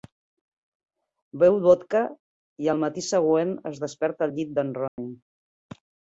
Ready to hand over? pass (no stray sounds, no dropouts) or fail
fail